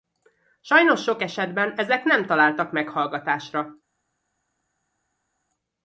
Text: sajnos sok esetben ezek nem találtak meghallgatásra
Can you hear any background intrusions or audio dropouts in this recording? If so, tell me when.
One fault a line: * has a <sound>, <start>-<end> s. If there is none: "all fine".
all fine